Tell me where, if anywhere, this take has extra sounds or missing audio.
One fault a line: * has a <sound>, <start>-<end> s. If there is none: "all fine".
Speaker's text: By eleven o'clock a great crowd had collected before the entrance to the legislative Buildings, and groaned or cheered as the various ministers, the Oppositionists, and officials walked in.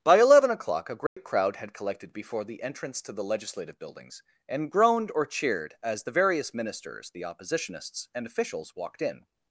* has a dropout, 1.1-1.2 s